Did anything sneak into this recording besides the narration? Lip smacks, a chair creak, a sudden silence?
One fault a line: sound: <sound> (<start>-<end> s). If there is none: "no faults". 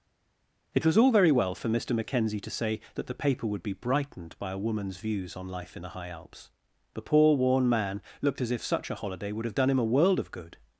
no faults